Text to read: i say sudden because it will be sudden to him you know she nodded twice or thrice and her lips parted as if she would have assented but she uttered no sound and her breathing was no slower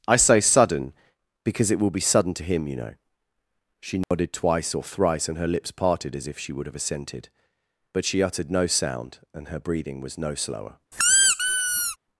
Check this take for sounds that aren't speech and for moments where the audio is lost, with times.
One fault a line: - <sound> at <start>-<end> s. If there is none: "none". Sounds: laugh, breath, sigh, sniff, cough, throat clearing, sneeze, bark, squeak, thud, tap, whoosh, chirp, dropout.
- dropout at 4.0-4.1 s
- squeak at 10.9-12.0 s